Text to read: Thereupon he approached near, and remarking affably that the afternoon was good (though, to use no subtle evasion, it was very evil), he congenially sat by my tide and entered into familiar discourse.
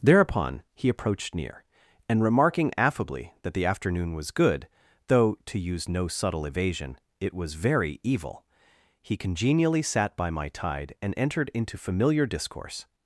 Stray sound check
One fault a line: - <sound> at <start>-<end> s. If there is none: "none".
none